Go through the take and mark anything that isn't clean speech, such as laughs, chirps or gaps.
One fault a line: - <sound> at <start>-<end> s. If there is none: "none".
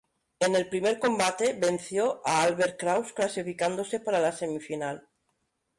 none